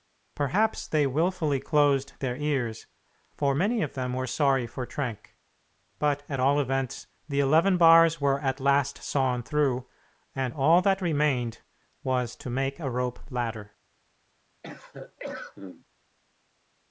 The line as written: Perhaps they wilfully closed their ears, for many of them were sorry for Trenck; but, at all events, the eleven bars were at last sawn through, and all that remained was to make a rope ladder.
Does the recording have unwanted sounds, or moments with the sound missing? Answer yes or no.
yes